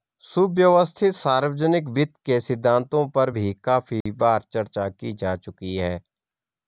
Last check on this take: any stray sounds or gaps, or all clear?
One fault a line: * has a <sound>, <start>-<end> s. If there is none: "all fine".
* has a dropout, 4.0-4.1 s